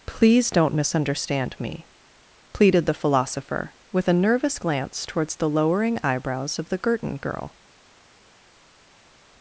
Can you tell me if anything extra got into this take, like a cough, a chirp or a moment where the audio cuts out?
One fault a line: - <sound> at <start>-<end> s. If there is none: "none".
none